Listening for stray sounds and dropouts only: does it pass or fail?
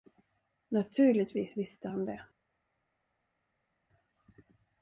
pass